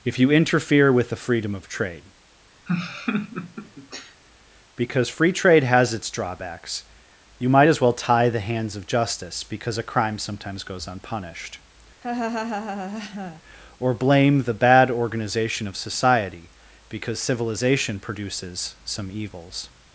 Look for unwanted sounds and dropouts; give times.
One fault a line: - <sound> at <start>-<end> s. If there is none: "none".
- laugh at 2.7-4.2 s
- laugh at 12.0-13.4 s